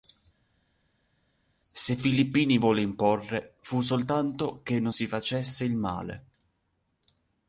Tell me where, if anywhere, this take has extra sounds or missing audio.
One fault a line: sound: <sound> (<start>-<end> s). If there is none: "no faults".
no faults